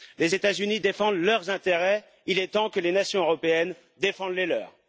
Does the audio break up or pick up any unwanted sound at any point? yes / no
no